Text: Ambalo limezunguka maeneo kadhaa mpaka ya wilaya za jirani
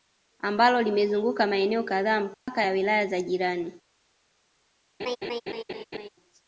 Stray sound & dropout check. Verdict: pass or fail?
fail